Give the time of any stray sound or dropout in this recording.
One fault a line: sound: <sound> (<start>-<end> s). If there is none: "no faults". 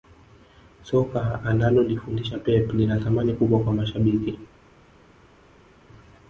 no faults